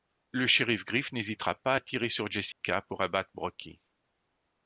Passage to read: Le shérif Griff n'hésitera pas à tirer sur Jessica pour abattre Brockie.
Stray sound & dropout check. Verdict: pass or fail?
fail